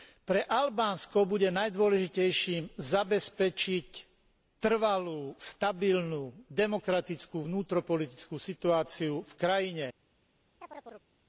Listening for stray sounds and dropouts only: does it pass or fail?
fail